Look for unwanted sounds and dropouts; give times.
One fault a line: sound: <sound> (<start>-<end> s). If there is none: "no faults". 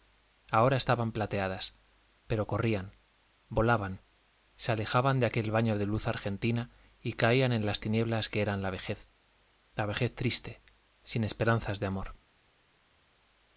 no faults